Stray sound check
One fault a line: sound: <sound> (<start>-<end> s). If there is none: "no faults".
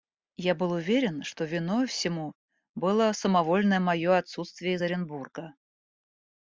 no faults